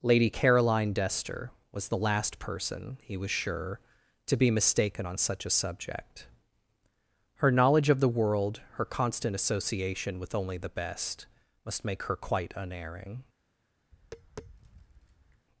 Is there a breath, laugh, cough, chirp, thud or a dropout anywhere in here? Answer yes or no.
yes